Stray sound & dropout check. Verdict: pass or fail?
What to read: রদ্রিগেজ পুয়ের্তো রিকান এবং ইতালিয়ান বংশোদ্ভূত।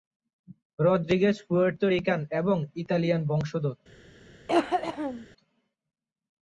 fail